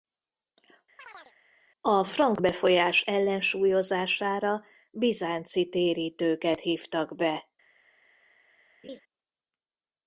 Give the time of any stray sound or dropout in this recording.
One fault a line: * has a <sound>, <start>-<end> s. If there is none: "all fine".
* has a chirp, 1.0-1.3 s
* has a laugh, 8.8-9.0 s